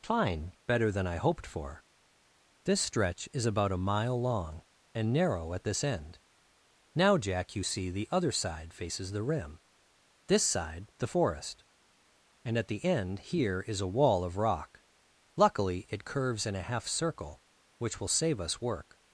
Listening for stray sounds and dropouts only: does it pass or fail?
pass